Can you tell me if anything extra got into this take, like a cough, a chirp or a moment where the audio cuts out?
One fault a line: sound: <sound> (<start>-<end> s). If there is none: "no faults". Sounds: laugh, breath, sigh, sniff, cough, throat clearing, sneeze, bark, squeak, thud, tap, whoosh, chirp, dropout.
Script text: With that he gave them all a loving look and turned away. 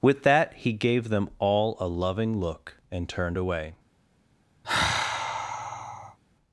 sound: sigh (4.6-6.2 s)